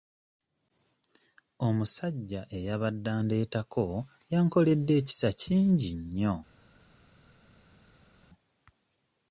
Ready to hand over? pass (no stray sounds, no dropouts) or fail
pass